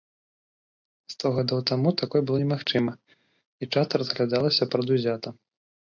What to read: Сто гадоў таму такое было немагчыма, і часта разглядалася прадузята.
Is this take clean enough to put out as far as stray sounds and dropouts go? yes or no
yes